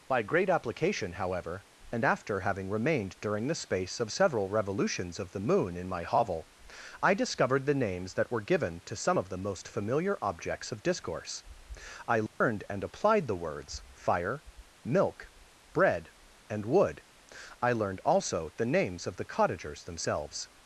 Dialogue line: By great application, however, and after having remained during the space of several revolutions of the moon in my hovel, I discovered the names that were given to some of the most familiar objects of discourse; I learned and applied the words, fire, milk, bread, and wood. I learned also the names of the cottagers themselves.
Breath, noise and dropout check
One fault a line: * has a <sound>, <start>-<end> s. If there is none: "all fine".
* has a dropout, 12.3-12.4 s